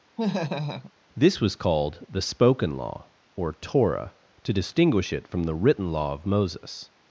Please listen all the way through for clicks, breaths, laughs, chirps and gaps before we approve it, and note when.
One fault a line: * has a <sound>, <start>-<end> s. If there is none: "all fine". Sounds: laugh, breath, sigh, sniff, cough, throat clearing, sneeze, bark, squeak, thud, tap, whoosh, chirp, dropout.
* has a laugh, 0.2-0.9 s